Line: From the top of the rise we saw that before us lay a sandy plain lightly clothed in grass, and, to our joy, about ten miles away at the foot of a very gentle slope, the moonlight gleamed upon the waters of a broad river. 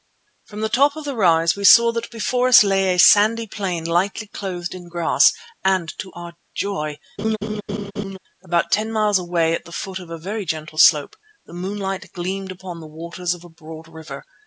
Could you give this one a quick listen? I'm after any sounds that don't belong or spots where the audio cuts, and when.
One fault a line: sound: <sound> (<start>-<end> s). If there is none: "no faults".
sound: laugh (7.2-8.2 s)